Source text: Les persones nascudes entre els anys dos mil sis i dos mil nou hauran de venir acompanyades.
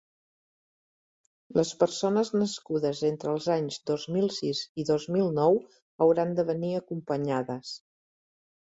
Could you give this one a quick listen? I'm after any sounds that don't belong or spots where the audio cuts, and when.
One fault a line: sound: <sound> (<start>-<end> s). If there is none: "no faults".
no faults